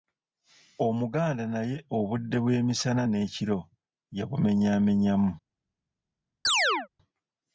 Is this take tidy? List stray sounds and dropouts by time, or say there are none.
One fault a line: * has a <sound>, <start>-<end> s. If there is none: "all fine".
* has a chirp, 6.4-6.9 s